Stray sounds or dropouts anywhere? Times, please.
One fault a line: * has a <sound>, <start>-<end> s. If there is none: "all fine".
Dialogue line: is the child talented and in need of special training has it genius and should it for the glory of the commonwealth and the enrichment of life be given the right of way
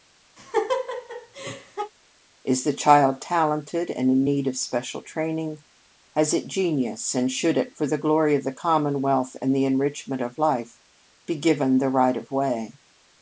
* has a laugh, 0.4-1.9 s